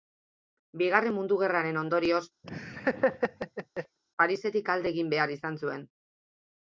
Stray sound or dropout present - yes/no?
yes